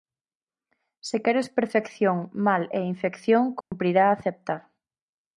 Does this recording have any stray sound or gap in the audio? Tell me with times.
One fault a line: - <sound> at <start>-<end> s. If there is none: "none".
- dropout at 3.6-3.7 s